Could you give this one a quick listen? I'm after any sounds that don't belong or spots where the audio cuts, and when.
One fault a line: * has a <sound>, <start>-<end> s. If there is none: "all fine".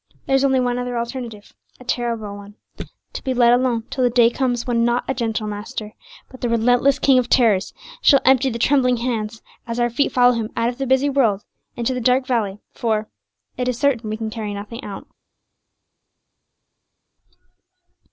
all fine